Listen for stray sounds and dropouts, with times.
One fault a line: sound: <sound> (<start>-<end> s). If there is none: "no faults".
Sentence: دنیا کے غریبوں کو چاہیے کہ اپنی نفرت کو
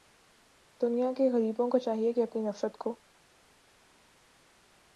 no faults